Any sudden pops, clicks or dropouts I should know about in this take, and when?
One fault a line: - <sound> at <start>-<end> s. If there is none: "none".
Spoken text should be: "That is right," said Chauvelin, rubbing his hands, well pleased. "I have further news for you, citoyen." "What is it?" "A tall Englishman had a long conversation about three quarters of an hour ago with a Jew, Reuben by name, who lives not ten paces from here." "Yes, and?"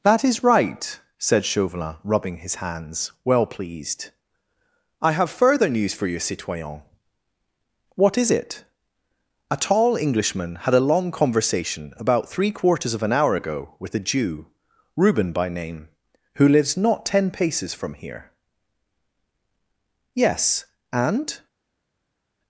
none